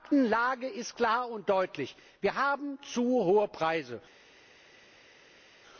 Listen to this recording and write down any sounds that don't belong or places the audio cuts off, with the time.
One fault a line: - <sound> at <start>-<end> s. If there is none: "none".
none